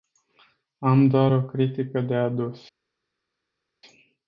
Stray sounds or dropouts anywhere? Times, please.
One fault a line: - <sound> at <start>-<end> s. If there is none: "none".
none